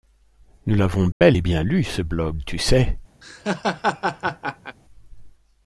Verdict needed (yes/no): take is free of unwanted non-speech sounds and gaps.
no